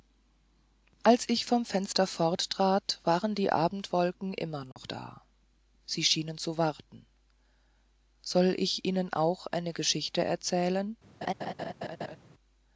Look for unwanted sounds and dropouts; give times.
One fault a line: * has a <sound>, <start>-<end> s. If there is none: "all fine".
* has a dropout, 4.7-4.8 s
* has a laugh, 11.2-12.2 s